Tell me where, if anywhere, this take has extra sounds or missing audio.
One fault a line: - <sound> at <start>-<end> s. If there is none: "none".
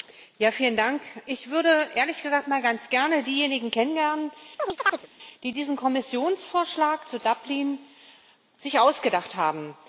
- chirp at 4.6-5.1 s